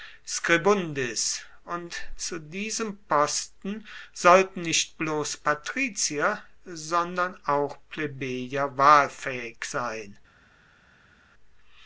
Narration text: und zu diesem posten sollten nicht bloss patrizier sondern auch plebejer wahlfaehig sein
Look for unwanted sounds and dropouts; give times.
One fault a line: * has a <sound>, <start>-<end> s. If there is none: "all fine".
all fine